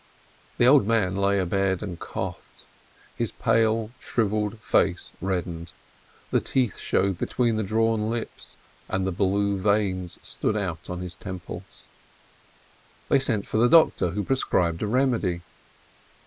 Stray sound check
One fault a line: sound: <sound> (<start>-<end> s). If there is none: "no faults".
no faults